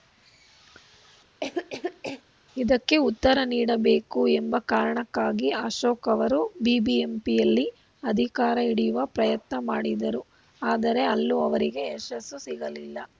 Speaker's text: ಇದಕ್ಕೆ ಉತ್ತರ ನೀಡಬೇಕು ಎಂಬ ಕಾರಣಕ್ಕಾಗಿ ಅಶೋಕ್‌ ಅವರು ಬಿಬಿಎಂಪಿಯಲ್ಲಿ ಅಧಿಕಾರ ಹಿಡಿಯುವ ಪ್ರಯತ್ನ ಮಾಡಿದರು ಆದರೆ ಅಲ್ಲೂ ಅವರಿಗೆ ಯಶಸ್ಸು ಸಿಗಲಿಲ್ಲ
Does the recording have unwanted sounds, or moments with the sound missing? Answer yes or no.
yes